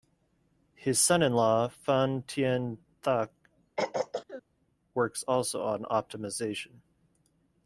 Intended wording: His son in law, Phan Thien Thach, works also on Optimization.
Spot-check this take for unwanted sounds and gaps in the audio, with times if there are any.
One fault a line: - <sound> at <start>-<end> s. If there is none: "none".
- throat clearing at 3.8-4.4 s